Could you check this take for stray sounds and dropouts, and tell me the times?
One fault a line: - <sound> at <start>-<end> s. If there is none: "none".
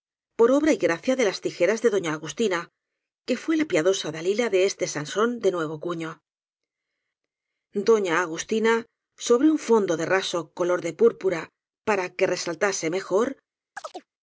- chirp at 13.8-14.1 s